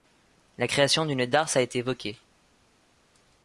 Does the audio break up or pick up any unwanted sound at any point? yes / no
no